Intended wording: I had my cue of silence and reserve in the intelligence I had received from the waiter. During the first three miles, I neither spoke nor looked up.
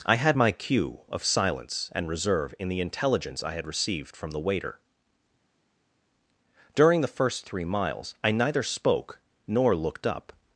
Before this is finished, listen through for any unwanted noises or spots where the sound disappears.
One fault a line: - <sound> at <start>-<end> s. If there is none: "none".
none